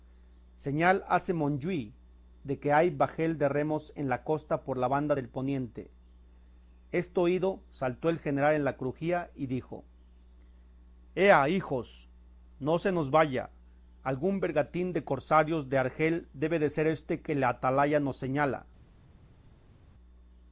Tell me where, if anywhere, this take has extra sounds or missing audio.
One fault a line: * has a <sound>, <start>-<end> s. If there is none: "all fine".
all fine